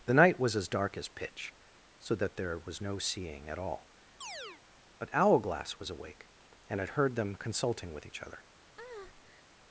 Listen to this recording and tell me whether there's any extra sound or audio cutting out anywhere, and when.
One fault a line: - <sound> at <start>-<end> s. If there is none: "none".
- chirp at 4.2-4.6 s
- breath at 8.8-9.5 s